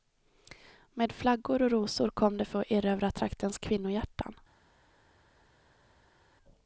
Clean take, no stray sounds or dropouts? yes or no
yes